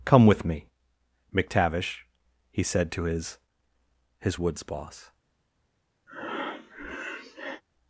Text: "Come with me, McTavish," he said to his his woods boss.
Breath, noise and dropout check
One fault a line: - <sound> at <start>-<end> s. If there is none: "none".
- breath at 6.1-7.6 s